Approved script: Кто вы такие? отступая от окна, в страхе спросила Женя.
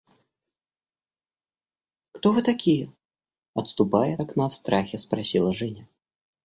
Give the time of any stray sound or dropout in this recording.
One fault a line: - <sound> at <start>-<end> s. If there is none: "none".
none